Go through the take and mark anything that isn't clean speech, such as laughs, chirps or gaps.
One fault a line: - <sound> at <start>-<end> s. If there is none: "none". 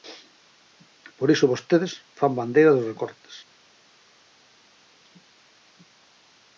none